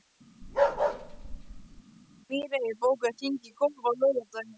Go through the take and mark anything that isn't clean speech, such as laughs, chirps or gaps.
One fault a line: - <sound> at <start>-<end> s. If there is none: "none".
- bark at 0.4-1.8 s